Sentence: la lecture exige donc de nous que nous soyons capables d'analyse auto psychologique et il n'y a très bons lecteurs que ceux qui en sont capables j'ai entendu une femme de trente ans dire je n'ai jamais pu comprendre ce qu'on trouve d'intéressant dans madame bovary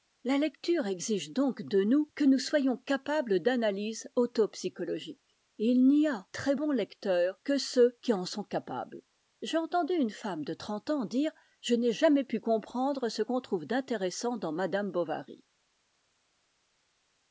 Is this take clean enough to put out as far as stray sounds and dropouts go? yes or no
yes